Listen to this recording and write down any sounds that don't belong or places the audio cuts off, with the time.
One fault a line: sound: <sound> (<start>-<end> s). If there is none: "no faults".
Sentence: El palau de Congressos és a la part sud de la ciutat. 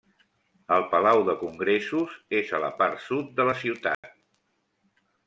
sound: dropout (3.9-4.0 s)